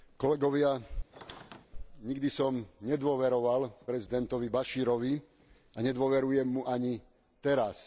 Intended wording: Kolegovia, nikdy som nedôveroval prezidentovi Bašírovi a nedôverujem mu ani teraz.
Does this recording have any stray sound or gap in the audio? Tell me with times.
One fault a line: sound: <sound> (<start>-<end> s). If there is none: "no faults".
sound: squeak (1.1-1.7 s)